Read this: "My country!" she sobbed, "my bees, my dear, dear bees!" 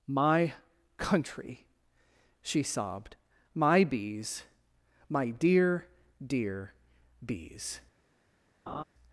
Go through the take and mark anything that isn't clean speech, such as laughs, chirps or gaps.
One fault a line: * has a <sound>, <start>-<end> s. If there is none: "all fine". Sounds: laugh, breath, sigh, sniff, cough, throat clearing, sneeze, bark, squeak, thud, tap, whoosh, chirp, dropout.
* has a laugh, 8.7-8.8 s